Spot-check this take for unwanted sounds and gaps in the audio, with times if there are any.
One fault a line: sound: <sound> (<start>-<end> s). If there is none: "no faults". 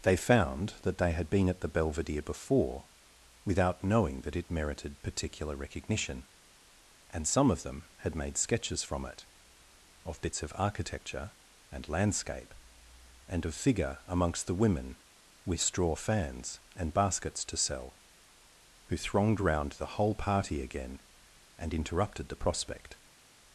no faults